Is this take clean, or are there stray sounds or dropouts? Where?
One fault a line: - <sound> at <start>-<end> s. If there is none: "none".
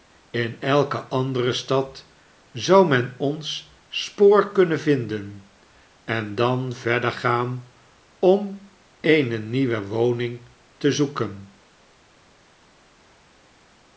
none